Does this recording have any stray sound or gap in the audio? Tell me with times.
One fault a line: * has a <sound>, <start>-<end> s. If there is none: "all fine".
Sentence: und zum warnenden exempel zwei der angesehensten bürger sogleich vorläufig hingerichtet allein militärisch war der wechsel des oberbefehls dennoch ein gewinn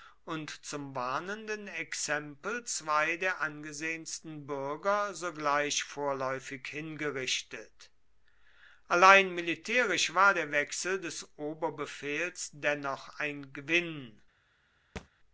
* has a thud, 15.0-15.1 s